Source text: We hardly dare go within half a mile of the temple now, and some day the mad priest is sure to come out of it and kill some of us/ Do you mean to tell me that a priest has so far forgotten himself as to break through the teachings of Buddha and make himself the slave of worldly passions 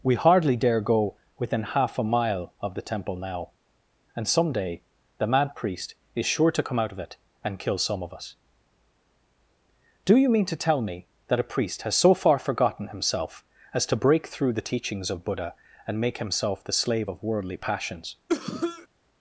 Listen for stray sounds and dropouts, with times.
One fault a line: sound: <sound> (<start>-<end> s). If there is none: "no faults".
sound: cough (18.3-18.9 s)